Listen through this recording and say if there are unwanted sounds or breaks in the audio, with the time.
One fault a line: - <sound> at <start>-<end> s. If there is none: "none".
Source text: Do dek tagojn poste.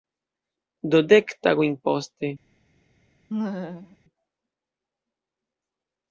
- laugh at 3.3-4.0 s